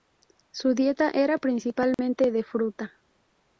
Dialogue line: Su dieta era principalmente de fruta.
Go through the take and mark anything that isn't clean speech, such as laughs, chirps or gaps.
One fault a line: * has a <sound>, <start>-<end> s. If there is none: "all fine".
* has a dropout, 1.9-2.0 s